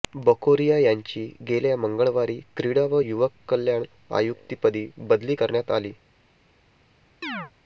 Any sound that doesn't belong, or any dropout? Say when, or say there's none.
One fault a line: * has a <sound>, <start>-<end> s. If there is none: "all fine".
* has a chirp, 7.2-7.5 s